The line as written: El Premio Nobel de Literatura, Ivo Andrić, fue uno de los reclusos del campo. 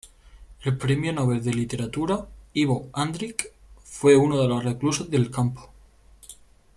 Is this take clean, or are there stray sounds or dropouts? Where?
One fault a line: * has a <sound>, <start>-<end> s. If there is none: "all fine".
all fine